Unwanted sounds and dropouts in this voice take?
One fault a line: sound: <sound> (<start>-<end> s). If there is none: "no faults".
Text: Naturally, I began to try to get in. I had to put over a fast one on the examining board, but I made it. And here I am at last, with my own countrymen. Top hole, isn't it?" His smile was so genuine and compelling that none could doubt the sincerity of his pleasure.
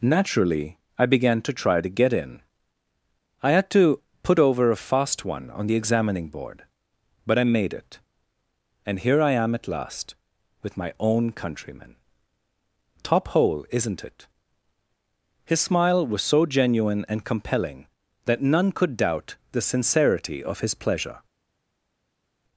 no faults